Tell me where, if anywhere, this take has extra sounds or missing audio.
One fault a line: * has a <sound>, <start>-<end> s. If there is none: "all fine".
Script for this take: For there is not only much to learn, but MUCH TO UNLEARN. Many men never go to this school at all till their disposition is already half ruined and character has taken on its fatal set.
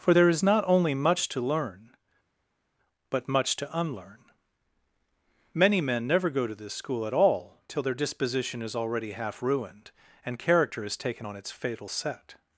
all fine